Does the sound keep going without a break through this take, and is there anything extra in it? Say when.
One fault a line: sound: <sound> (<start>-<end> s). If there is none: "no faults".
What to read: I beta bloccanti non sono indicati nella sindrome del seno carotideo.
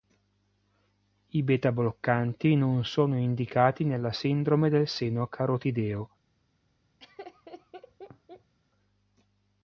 sound: laugh (7.0-8.5 s)